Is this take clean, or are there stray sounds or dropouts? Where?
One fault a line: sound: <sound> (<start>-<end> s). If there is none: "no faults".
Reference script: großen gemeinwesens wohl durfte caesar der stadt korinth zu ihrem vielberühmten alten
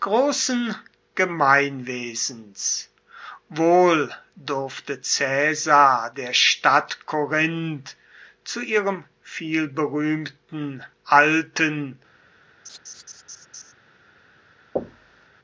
sound: laugh (12.6-13.7 s)
sound: thud (14.8-15.3 s)